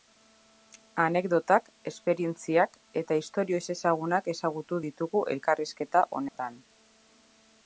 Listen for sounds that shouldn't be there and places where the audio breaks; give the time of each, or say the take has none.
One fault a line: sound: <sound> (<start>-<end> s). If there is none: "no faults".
sound: dropout (6.3-6.4 s)